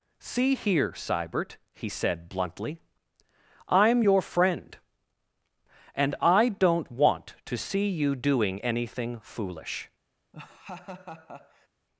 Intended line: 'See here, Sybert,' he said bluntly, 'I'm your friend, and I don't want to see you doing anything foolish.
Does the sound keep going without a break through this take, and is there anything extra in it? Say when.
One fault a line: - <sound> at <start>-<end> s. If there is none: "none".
- laugh at 10.3-11.7 s